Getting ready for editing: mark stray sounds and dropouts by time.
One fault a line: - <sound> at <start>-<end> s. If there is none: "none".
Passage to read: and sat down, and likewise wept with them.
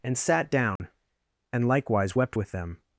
- dropout at 0.8-0.8 s